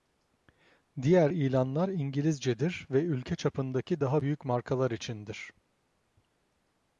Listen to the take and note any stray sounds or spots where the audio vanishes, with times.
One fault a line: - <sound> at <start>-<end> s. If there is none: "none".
none